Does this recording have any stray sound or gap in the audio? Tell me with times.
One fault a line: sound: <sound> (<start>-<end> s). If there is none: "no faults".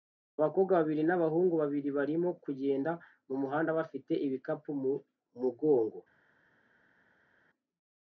no faults